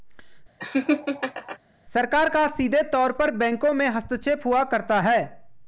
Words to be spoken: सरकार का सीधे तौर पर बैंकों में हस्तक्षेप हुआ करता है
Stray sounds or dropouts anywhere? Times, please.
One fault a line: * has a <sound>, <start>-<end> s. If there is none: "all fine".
* has a laugh, 0.6-1.6 s